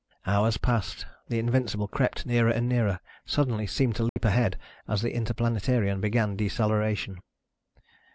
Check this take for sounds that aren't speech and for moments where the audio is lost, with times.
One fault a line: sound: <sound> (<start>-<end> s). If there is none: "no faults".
sound: dropout (4.1-4.2 s)